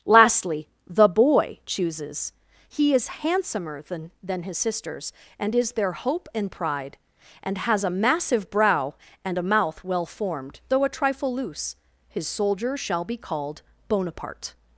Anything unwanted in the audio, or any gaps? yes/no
no